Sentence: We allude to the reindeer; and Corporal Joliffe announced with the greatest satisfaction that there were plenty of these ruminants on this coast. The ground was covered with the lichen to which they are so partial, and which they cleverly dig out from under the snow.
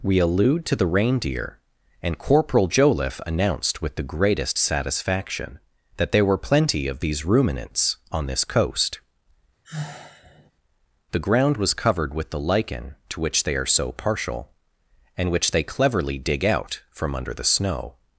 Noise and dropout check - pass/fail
fail